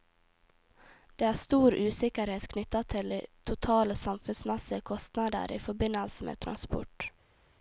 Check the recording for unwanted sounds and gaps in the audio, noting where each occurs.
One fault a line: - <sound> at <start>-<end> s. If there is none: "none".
none